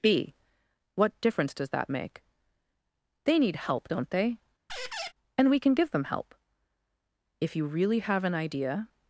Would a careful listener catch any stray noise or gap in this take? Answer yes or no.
yes